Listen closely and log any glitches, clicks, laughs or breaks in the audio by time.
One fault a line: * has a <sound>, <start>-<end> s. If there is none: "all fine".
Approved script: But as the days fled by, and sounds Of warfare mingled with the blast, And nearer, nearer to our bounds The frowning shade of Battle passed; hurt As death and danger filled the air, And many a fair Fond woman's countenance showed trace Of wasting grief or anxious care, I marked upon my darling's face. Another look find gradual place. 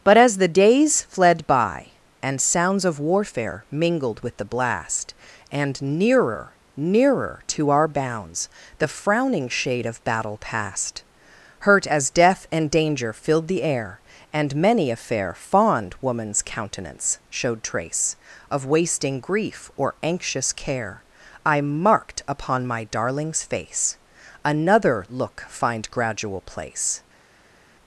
all fine